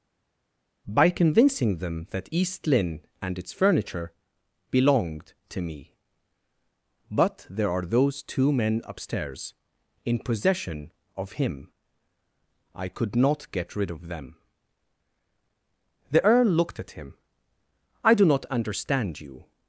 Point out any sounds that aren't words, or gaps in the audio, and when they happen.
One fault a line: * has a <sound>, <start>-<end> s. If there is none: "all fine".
all fine